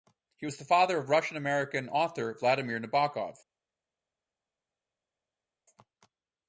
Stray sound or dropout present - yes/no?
no